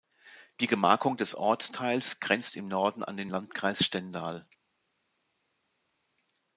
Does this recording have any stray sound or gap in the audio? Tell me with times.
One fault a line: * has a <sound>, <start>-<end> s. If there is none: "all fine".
all fine